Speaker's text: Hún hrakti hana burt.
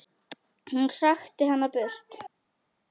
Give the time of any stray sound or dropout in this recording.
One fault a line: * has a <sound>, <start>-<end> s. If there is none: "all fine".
all fine